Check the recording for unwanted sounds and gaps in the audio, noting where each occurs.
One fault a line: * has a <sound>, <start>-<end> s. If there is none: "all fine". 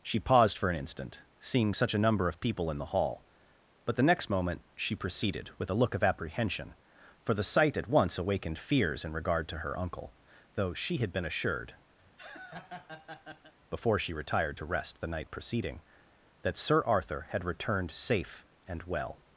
* has a laugh, 12.0-13.5 s